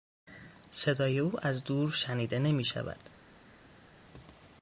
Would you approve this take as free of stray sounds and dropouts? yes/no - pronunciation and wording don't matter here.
yes